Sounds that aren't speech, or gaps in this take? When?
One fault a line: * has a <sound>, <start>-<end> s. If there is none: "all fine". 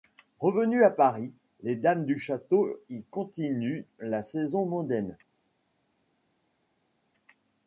all fine